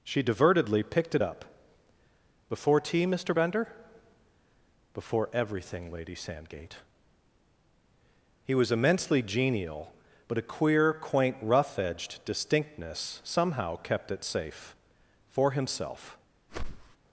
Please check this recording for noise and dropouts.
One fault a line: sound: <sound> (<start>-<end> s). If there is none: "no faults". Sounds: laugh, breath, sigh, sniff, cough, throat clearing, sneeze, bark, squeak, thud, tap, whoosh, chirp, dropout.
sound: whoosh (16.5-17.0 s)